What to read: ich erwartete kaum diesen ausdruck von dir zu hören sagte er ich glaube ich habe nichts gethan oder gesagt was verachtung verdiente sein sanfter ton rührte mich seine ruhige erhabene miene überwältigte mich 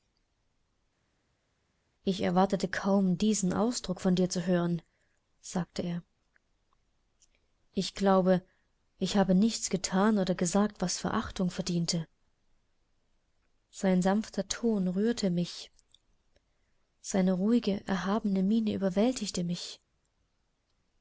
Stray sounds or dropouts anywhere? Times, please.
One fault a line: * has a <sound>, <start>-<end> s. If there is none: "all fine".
all fine